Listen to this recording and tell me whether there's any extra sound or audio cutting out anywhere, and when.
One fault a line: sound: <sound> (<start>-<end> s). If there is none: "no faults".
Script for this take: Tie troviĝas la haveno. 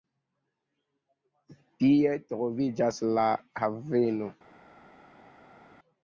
no faults